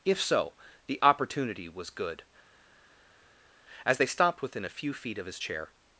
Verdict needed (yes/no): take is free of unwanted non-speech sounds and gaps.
yes